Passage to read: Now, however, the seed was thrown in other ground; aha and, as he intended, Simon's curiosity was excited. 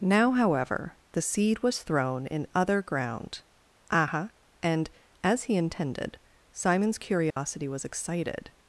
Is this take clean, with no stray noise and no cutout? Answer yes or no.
no